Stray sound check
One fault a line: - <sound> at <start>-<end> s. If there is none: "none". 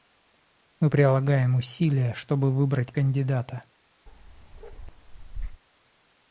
- bark at 4.1-5.6 s